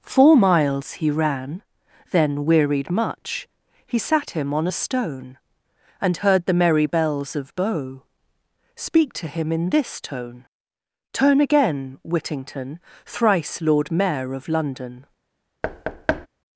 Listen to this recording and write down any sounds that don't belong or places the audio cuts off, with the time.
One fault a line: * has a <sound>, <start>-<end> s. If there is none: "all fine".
* has a thud, 15.6-16.3 s